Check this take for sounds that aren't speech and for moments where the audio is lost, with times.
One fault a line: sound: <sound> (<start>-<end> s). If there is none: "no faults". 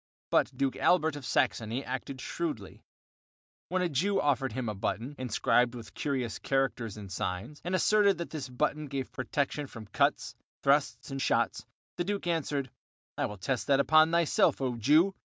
no faults